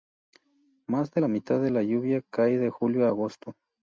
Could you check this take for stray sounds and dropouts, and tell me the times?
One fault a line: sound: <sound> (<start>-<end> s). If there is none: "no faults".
no faults